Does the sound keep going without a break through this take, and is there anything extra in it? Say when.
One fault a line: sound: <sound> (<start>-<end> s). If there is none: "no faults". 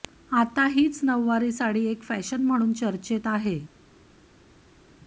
no faults